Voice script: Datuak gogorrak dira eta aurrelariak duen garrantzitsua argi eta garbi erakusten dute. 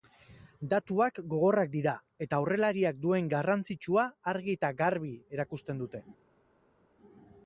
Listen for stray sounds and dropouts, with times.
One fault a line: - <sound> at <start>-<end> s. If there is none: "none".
none